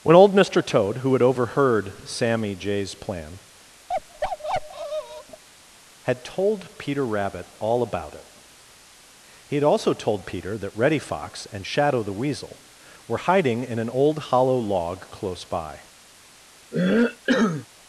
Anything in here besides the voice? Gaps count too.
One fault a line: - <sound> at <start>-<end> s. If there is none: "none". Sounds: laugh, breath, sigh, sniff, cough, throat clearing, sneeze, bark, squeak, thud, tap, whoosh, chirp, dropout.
- bark at 3.9-5.4 s
- cough at 16.7-17.7 s